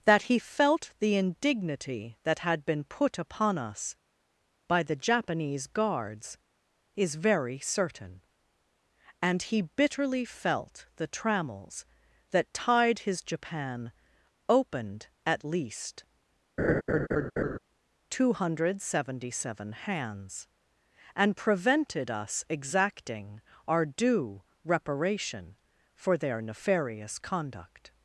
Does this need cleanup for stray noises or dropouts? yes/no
yes